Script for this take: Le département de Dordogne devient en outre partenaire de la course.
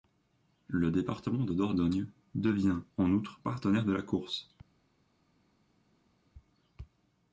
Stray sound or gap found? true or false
false